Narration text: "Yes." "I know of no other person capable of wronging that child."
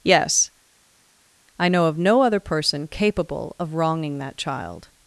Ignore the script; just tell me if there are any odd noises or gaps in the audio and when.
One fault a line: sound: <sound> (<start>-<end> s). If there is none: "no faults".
no faults